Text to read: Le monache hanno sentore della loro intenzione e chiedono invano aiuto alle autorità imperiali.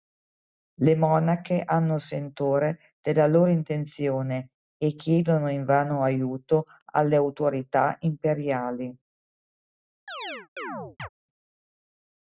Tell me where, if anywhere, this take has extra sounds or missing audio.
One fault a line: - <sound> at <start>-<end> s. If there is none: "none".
- chirp at 10.1-11.1 s